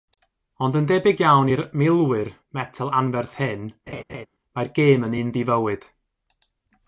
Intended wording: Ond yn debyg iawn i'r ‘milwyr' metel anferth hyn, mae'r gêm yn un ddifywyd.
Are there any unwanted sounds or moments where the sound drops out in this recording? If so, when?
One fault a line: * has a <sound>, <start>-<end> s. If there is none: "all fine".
* has a laugh, 3.9-4.3 s